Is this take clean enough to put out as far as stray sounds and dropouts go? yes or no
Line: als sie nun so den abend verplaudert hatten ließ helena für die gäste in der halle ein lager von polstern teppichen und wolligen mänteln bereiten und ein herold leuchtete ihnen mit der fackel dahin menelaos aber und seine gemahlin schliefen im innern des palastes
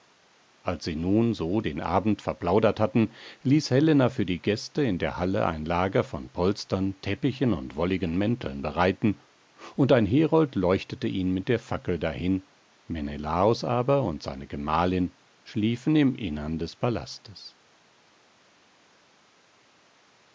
yes